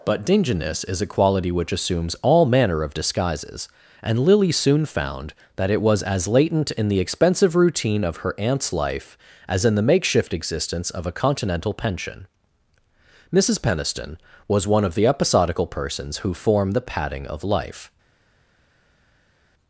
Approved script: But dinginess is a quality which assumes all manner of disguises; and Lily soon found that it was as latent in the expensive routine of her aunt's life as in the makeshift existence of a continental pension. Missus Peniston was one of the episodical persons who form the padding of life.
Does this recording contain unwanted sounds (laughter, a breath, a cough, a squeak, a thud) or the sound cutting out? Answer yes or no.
no